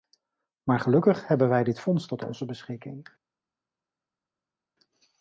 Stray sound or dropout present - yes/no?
no